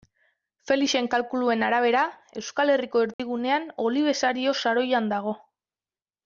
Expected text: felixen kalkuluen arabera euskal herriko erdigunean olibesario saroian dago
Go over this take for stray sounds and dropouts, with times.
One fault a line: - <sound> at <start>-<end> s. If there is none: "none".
- dropout at 3.1-3.2 s